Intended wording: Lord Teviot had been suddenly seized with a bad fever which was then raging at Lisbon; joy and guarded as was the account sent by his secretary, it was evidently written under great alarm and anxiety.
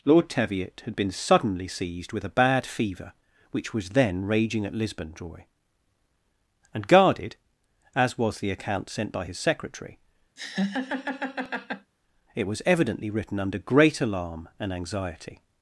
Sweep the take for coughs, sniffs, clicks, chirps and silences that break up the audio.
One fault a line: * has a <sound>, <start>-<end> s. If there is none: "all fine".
* has a laugh, 10.4-11.9 s